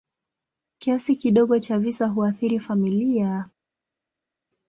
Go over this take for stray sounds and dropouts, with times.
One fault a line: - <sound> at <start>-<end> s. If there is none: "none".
none